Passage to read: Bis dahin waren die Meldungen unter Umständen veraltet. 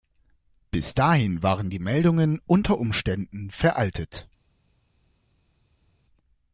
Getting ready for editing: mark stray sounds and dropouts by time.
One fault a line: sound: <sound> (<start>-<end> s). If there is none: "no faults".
no faults